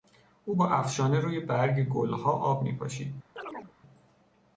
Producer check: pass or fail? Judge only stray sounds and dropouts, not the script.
fail